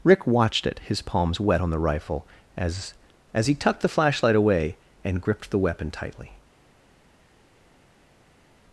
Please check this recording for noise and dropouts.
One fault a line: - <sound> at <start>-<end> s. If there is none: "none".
none